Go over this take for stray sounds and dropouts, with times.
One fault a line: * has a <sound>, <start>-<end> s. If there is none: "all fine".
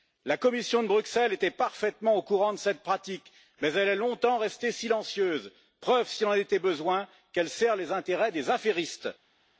all fine